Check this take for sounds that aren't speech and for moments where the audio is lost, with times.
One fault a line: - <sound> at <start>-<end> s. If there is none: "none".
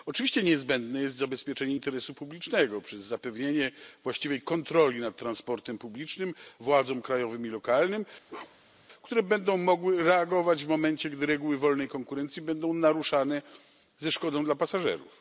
- bark at 8.3-8.9 s